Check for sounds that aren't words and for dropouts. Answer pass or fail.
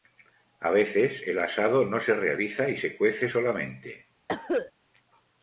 fail